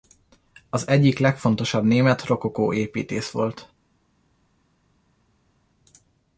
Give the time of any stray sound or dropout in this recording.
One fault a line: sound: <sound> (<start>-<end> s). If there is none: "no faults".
no faults